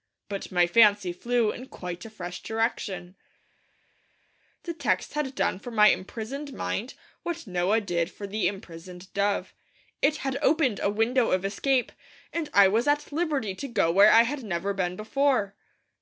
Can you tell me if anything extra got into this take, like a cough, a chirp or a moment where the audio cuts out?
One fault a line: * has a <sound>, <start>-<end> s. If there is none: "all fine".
all fine